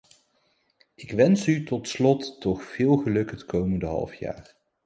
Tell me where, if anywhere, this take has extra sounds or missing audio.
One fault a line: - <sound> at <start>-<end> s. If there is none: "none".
none